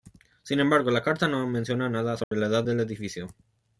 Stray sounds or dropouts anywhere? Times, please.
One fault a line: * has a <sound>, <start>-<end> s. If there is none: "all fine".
* has a dropout, 2.2-2.3 s